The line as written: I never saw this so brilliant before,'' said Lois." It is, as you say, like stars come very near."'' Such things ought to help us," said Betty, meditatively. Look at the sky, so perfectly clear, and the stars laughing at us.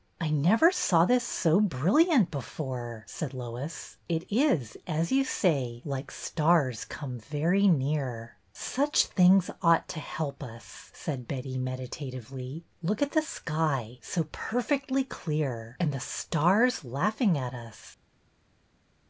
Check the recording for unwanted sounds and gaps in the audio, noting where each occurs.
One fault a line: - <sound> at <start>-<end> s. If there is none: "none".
none